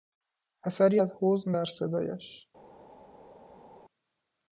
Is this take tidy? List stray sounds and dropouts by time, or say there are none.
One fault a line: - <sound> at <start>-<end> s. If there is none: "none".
none